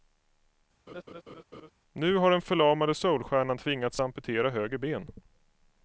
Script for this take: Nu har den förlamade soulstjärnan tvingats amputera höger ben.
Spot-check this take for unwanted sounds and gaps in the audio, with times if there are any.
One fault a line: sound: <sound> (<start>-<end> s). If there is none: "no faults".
sound: laugh (0.9-1.7 s)